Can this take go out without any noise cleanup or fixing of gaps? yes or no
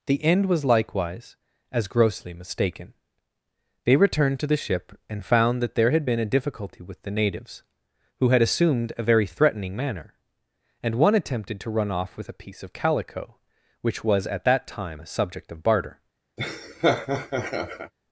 no